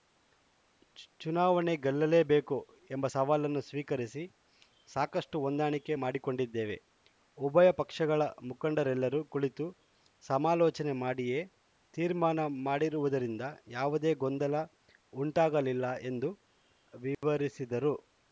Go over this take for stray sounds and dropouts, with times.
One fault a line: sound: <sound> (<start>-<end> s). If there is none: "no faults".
sound: dropout (17.1-17.2 s)